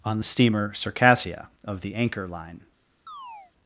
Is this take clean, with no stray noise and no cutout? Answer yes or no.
no